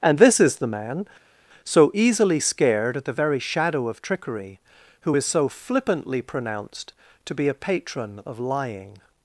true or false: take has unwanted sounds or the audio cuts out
false